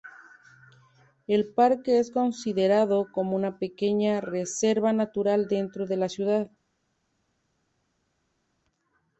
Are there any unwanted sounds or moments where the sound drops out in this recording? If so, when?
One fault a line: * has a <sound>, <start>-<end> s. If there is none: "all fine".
all fine